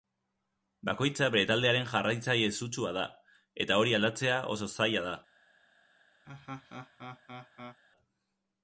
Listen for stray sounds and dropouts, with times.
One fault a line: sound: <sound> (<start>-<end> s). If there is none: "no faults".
sound: laugh (6.2-7.8 s)